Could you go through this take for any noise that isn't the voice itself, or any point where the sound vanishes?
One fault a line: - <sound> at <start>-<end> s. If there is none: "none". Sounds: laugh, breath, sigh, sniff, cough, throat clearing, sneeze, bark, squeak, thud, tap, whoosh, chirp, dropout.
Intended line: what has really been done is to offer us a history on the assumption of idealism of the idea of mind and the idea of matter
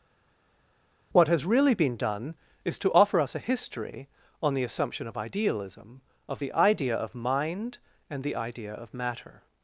none